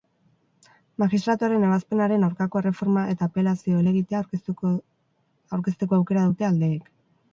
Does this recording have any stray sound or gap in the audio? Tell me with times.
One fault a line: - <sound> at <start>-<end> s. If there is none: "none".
none